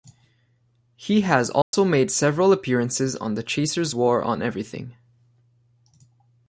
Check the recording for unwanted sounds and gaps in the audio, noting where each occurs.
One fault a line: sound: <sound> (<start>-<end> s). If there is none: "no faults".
sound: dropout (1.6-1.7 s)